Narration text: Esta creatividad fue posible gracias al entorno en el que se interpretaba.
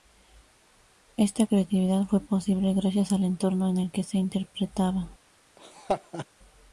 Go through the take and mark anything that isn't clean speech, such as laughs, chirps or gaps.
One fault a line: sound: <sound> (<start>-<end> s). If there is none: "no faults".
sound: laugh (5.6-6.3 s)